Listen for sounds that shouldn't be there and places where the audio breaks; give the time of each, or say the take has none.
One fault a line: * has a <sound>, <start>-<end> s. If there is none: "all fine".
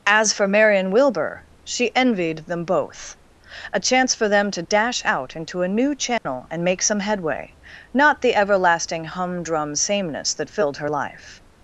* has a dropout, 6.2-6.3 s